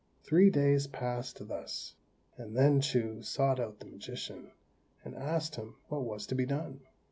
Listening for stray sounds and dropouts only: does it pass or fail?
pass